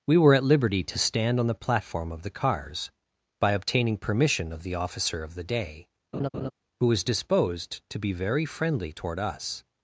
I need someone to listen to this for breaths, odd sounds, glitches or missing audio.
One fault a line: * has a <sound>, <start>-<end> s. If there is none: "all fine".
* has a laugh, 6.1-6.5 s